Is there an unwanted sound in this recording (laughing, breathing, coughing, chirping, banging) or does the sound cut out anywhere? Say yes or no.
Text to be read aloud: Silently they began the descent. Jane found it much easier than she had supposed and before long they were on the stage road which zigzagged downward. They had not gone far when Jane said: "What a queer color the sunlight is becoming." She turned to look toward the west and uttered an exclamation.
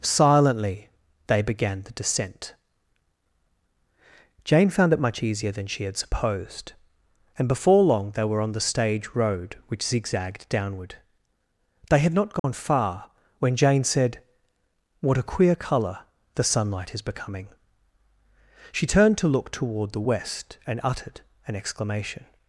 yes